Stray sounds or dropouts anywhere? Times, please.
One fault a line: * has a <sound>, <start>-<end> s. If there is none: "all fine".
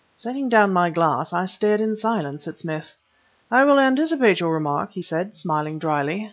all fine